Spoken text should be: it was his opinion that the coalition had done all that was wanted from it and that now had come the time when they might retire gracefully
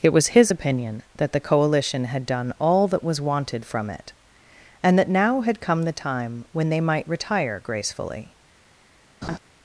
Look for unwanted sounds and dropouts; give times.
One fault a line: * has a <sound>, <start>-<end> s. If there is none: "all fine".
* has a laugh, 9.2-9.4 s